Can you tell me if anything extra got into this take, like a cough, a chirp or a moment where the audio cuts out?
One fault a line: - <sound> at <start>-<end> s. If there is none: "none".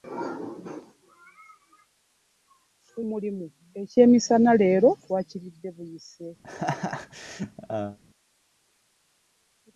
- laugh at 6.4-8.0 s